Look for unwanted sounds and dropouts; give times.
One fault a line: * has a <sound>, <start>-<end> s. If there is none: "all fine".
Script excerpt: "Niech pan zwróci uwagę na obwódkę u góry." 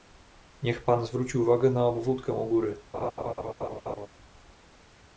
* has a laugh, 2.9-4.1 s